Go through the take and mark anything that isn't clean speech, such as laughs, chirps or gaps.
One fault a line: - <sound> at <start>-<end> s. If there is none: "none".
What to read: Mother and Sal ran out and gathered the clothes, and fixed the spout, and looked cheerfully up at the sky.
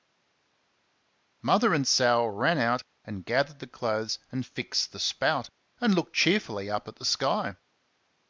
none